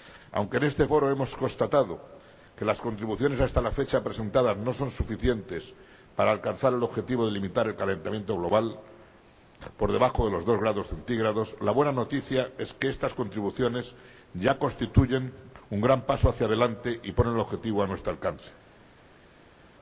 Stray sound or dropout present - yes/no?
no